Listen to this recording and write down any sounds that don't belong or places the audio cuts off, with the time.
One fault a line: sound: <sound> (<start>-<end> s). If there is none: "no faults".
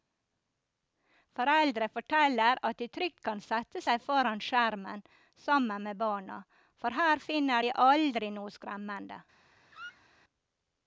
sound: squeak (9.7-10.1 s)